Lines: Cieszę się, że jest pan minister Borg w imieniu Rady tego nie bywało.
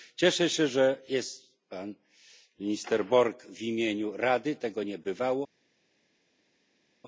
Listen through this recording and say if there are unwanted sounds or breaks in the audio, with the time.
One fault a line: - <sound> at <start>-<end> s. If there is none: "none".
none